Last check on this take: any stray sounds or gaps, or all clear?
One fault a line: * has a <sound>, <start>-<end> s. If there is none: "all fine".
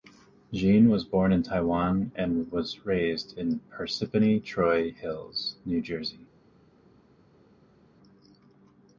all fine